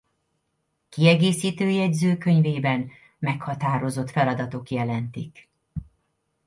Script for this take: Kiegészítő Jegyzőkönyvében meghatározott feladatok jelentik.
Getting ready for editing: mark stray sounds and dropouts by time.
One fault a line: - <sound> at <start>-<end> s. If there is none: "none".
none